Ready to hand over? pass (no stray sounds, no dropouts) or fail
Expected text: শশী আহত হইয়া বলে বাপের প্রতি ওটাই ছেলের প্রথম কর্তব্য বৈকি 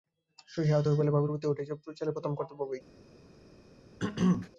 fail